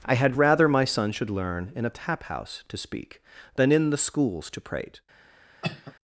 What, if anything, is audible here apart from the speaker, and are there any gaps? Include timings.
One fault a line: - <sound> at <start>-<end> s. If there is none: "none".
- cough at 5.6-5.9 s